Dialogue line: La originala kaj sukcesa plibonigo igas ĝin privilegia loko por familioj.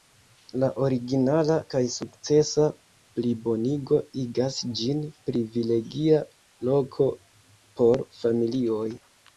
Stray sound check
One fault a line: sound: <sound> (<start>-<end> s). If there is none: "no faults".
no faults